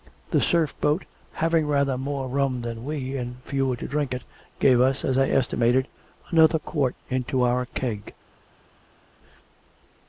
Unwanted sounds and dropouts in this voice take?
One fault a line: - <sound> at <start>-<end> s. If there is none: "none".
none